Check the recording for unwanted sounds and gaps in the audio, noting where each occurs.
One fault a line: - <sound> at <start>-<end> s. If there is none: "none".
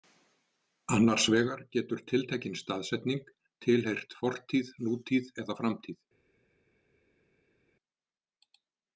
none